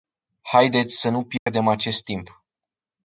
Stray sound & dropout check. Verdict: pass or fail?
fail